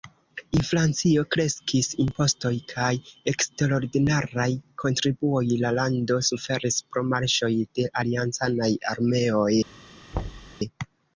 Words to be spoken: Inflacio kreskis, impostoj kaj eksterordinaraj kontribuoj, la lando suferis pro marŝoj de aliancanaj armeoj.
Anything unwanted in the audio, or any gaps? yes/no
yes